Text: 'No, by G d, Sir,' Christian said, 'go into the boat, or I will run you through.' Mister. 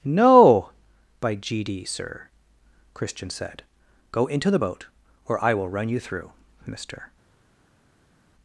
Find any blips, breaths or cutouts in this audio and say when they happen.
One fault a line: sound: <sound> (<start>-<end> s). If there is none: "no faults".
no faults